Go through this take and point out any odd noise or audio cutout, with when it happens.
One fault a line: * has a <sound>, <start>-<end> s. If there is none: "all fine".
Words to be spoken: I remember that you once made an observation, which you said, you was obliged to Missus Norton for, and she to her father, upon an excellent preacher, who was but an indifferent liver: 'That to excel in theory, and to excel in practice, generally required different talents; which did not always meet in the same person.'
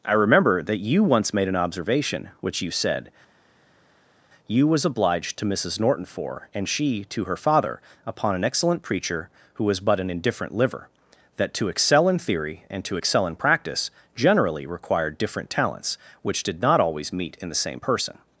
all fine